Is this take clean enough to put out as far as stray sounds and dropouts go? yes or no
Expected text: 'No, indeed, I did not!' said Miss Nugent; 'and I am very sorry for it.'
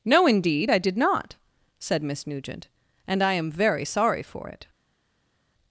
yes